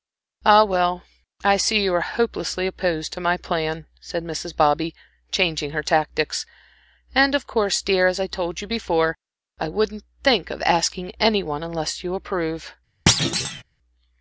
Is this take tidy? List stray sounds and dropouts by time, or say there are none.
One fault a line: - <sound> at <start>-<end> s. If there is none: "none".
- thud at 13.1-13.6 s